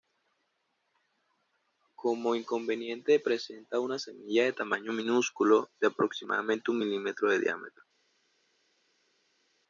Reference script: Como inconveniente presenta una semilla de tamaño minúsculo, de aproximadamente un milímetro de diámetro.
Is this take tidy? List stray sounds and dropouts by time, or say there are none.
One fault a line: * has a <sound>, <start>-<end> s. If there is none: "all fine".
all fine